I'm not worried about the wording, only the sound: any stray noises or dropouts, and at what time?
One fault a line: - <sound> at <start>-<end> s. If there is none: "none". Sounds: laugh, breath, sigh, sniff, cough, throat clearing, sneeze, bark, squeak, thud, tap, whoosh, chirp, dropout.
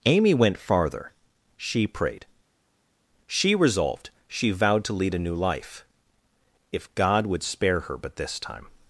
none